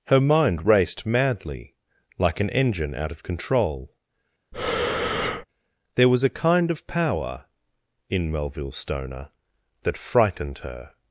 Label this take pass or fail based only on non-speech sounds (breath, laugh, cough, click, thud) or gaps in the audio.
fail